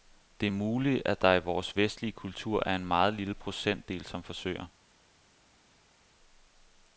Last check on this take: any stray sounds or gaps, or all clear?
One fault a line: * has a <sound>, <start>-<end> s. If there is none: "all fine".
all fine